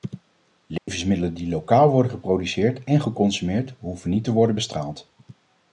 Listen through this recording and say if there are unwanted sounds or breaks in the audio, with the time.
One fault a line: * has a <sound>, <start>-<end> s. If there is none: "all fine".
* has a dropout, 0.8-0.9 s